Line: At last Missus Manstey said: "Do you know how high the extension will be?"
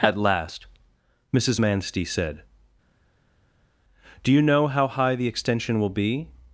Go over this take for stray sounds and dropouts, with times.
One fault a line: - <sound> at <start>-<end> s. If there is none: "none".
none